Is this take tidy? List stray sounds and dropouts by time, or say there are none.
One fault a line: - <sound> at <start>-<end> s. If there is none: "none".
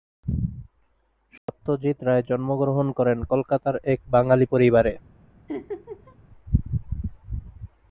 - dropout at 1.4-1.5 s
- laugh at 5.5-6.2 s